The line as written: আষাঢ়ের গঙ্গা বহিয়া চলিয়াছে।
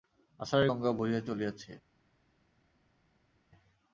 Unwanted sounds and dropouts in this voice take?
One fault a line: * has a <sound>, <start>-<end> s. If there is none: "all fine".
all fine